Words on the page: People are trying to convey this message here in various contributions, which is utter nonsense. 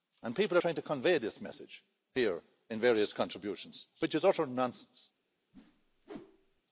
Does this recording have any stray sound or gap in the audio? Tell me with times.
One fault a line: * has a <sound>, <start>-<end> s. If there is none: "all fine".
* has a whoosh, 5.5-6.6 s